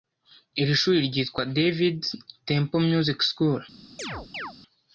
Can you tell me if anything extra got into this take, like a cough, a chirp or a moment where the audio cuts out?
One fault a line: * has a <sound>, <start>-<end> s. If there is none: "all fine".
* has a chirp, 4.0-4.5 s